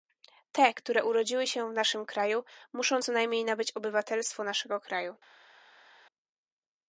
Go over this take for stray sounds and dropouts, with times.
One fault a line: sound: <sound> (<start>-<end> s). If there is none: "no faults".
no faults